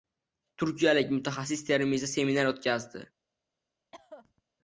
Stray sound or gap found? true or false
true